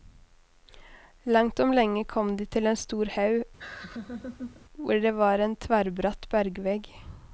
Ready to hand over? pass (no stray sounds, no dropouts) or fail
fail